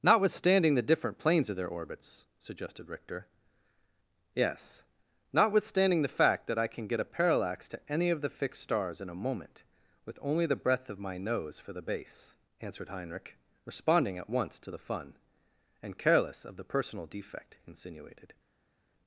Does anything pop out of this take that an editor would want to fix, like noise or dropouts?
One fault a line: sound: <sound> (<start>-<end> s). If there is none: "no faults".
no faults